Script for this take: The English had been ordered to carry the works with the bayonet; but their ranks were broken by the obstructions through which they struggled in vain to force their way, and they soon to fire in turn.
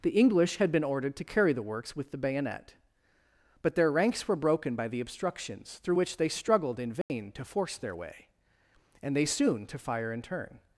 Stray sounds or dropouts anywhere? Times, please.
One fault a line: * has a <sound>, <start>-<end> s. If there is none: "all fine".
* has a dropout, 7.0-7.1 s